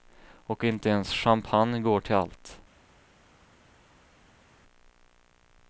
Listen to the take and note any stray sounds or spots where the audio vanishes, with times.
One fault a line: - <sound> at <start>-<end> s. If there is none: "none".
none